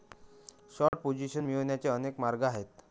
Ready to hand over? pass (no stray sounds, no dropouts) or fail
fail